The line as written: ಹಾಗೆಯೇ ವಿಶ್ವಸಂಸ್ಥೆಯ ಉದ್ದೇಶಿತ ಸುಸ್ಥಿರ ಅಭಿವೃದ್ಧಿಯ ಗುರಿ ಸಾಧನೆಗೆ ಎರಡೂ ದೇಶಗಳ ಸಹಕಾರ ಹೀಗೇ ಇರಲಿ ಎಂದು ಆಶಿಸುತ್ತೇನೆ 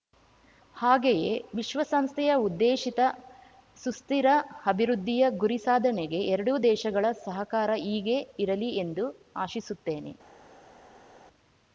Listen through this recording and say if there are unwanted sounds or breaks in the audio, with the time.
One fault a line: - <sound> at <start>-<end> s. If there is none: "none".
none